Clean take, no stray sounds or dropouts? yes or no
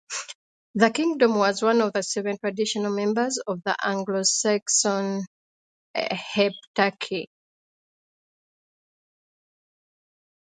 yes